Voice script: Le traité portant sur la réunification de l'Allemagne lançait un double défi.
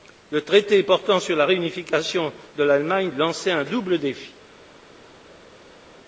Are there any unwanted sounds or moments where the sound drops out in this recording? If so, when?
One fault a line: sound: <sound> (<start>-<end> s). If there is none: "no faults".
no faults